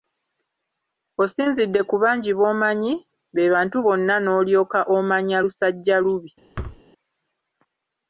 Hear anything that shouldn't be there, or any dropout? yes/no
yes